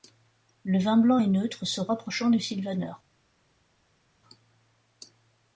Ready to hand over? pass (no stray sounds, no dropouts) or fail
pass